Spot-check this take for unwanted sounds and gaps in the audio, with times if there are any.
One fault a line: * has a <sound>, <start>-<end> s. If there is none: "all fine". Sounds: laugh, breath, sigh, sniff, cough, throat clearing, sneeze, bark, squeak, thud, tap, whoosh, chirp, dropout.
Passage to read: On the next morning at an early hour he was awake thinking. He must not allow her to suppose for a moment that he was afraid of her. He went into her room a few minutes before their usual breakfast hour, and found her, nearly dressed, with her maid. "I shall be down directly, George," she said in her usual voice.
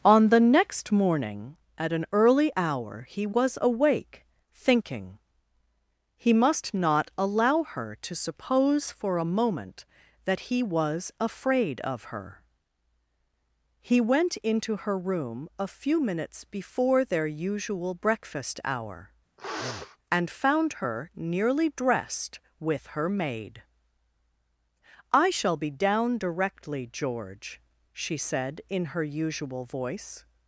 * has a sniff, 19.4-20.0 s